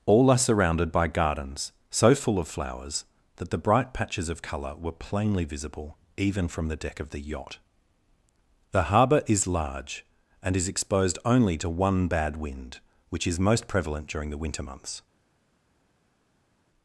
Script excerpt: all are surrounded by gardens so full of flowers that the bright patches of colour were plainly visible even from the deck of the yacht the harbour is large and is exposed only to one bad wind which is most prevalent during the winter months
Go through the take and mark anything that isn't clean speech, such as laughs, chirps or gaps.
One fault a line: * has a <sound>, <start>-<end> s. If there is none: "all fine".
all fine